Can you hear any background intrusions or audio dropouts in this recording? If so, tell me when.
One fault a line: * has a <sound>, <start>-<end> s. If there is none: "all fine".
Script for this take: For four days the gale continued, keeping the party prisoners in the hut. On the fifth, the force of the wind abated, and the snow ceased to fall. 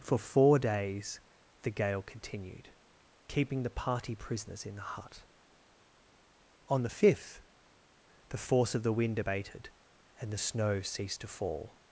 all fine